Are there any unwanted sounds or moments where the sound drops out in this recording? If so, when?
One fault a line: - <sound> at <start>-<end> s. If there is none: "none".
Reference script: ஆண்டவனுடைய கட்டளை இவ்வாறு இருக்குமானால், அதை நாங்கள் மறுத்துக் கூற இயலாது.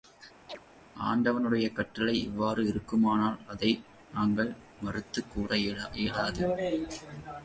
- chirp at 0.5-0.6 s